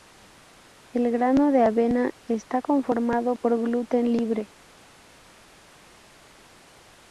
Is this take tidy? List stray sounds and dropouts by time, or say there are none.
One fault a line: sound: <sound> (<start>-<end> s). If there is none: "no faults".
no faults